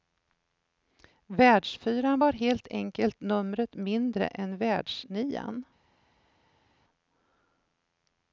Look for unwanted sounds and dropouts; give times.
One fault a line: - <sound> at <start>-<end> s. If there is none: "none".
none